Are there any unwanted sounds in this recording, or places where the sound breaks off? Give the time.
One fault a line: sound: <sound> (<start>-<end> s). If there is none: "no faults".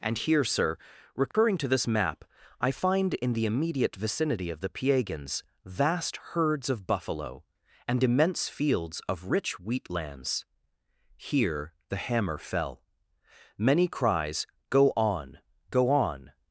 sound: dropout (1.3-1.3 s)